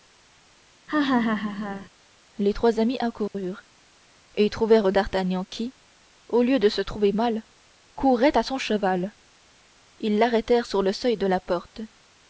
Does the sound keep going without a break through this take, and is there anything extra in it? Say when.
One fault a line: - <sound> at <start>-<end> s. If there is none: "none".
- laugh at 0.9-1.9 s
- dropout at 3.3-3.3 s